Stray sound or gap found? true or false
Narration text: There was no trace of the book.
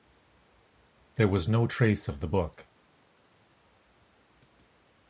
false